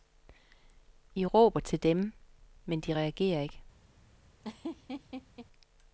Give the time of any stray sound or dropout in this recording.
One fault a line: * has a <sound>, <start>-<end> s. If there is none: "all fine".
* has a laugh, 4.4-5.5 s